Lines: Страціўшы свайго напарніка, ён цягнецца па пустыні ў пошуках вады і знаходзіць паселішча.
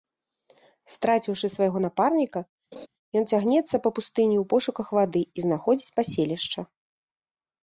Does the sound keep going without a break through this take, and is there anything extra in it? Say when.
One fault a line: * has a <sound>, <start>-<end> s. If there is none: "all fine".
* has a laugh, 2.7-2.9 s